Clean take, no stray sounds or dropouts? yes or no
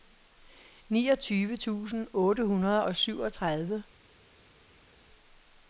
yes